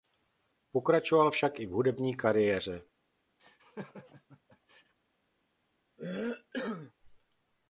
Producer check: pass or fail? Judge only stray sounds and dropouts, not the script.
fail